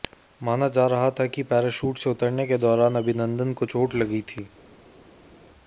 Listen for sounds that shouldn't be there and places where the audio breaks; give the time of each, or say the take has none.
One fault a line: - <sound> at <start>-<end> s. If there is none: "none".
none